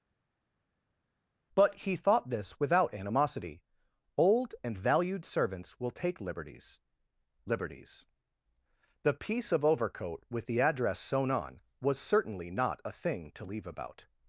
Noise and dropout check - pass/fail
pass